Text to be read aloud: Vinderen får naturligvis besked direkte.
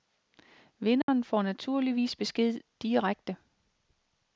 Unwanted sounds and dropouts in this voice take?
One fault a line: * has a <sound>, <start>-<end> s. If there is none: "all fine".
* has a dropout, 1.0-1.1 s